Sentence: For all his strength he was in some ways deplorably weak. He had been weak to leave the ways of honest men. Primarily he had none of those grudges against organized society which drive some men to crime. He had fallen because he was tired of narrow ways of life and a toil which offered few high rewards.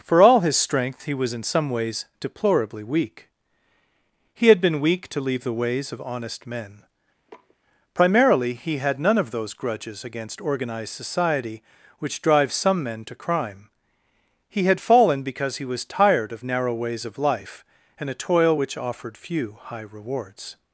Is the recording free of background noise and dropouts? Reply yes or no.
no